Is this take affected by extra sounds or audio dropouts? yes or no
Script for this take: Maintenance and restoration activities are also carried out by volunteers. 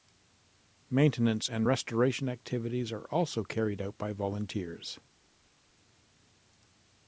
no